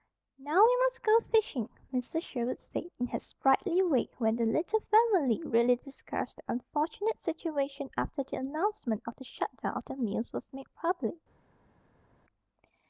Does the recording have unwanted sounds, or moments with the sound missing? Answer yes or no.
no